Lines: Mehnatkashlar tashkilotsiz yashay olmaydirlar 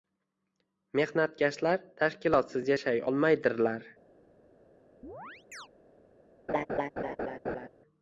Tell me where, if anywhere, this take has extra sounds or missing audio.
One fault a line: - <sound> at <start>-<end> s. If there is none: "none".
- chirp at 5.0-5.7 s
- laugh at 6.5-7.7 s